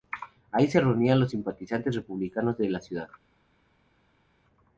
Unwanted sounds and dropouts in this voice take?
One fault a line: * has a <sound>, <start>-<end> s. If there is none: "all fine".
all fine